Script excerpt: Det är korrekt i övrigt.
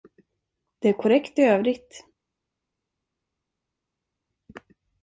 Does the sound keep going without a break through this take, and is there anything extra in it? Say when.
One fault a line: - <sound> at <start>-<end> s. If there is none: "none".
none